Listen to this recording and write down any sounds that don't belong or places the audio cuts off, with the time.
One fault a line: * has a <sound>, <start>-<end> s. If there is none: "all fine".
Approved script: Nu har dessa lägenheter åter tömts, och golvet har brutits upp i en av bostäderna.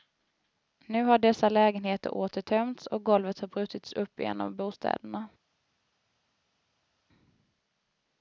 all fine